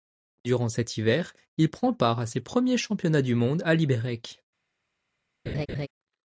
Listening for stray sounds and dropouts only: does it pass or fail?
fail